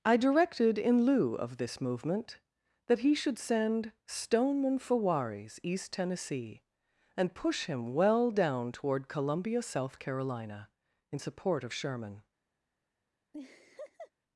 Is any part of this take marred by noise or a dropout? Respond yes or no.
yes